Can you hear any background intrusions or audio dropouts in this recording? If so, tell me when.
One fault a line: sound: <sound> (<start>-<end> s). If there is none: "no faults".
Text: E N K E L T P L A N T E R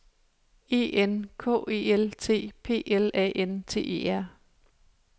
no faults